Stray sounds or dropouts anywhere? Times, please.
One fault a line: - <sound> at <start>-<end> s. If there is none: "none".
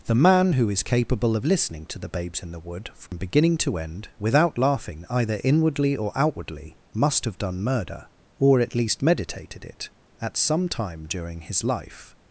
- dropout at 3.1-3.1 s